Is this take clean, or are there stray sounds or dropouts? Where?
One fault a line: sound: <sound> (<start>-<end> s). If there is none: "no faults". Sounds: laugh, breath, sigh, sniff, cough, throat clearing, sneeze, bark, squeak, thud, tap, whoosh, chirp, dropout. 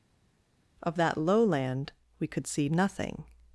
no faults